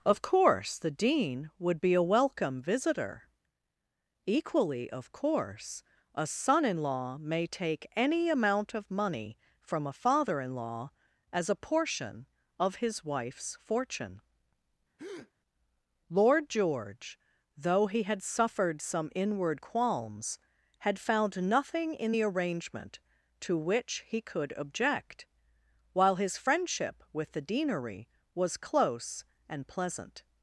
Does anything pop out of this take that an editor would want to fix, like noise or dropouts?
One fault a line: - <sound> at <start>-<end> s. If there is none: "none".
- breath at 15.0-15.3 s